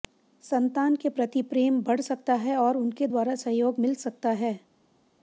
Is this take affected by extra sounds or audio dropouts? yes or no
no